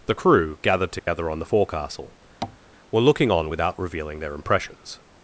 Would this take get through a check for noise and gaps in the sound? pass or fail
fail